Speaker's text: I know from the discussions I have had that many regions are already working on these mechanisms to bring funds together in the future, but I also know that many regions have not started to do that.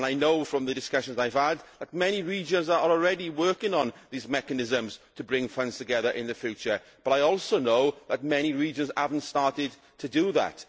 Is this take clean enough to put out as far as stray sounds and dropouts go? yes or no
yes